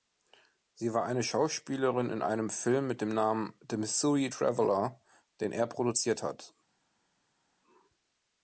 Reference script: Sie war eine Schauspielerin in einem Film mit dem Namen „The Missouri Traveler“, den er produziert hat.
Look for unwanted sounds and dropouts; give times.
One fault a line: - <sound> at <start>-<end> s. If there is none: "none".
none